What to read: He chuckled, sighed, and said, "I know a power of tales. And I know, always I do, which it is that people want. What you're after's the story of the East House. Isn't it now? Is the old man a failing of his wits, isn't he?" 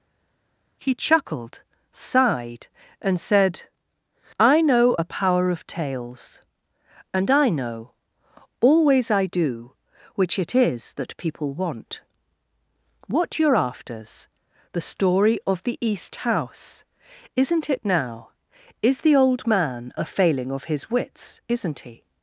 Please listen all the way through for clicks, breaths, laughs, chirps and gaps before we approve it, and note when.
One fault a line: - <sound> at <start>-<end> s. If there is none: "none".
none